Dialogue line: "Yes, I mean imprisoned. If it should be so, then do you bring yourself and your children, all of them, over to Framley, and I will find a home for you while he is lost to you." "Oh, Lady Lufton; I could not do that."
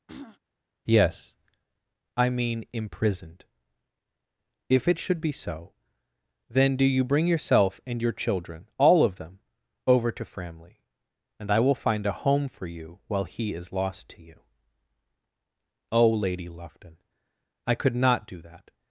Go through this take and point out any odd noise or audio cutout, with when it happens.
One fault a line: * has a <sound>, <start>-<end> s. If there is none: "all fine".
* has a throat clearing, 0.1-0.4 s